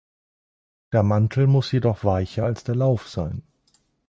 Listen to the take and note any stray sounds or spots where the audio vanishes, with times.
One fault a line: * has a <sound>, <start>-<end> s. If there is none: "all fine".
all fine